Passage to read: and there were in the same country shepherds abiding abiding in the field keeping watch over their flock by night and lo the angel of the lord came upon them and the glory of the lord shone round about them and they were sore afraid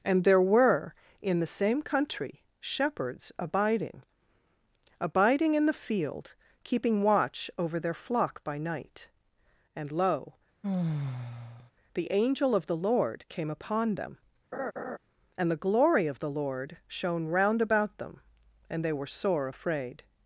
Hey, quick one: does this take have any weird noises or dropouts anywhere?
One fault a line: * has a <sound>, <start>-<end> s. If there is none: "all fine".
* has a sigh, 10.6-11.7 s
* has a laugh, 14.5-15.0 s